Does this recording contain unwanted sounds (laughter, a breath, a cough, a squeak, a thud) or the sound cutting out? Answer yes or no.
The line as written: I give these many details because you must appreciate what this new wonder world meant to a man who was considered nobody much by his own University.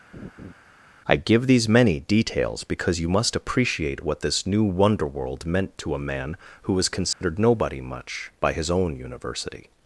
yes